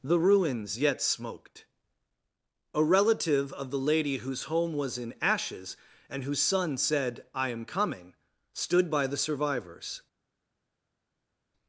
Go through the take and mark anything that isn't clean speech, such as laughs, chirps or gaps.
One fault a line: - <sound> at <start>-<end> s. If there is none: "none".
none